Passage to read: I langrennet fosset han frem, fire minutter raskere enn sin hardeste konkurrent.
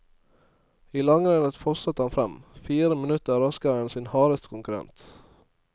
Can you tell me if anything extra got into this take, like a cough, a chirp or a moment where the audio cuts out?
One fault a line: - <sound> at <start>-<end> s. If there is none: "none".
none